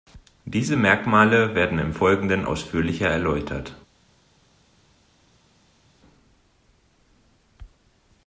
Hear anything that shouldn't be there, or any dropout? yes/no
no